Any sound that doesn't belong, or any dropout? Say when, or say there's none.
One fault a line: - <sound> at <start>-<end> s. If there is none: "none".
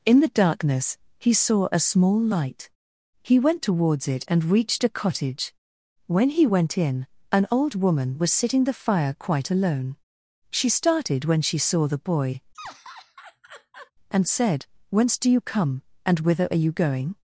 - laugh at 12.5-13.9 s